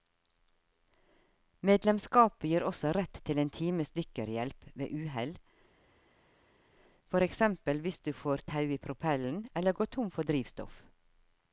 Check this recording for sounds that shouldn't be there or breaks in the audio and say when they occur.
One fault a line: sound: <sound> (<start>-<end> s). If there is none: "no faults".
no faults